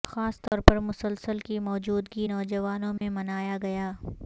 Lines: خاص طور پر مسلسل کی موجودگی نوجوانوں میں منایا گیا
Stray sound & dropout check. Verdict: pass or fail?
fail